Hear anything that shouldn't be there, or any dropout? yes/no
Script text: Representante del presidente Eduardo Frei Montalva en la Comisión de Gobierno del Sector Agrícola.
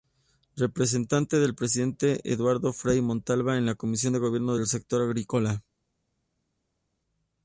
no